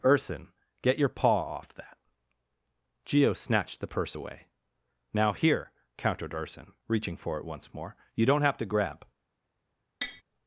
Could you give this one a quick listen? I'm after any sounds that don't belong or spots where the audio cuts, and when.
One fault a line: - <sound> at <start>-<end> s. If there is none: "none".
- tap at 10.0-10.2 s